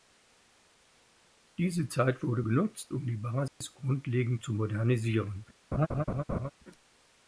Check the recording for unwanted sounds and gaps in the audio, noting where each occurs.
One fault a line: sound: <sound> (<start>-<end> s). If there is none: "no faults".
sound: dropout (3.5-3.6 s)
sound: laugh (5.7-6.5 s)